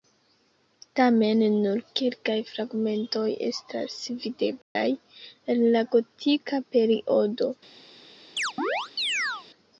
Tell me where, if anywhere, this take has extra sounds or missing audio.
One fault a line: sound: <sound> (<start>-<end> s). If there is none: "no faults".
sound: dropout (4.6-4.8 s)
sound: chirp (8.4-9.5 s)